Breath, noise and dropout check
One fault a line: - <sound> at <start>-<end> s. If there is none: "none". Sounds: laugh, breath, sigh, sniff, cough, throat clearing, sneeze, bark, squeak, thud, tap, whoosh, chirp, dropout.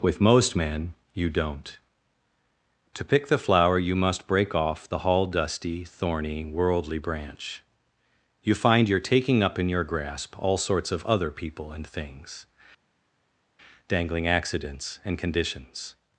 none